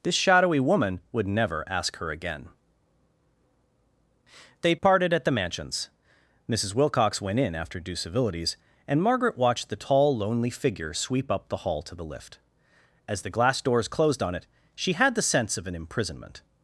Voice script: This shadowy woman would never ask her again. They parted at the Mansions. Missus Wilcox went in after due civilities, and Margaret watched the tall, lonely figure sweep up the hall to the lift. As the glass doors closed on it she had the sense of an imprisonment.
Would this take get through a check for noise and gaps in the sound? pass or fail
pass